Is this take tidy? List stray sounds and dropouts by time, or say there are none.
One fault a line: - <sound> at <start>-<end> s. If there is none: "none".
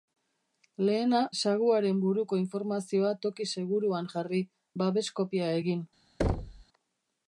- thud at 6.2-6.6 s